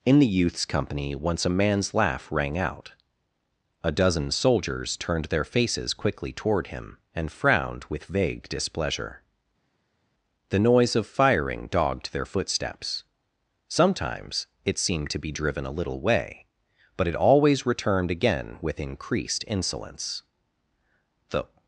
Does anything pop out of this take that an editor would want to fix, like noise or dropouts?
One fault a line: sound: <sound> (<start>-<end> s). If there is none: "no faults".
no faults